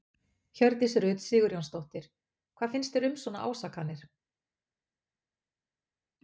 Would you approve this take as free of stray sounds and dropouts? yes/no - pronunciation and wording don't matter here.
yes